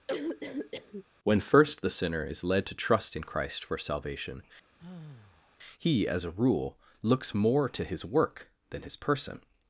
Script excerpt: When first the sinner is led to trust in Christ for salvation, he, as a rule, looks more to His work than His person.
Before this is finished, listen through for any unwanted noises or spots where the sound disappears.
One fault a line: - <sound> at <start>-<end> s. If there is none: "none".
- cough at 0.1-1.0 s
- sigh at 4.8-5.6 s